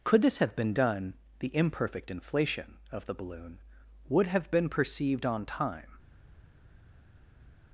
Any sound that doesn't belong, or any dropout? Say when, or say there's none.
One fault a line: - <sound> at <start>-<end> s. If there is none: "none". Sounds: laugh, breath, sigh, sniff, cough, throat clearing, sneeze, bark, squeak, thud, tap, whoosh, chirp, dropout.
none